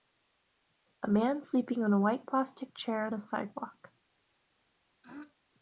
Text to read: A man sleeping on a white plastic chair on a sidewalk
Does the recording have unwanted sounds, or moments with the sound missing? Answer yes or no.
yes